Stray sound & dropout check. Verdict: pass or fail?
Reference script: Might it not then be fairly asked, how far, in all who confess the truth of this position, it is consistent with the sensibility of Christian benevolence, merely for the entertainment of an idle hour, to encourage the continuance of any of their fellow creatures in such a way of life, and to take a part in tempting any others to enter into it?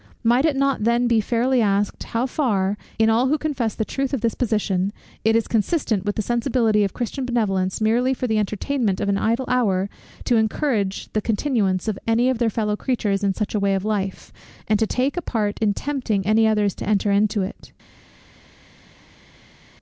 pass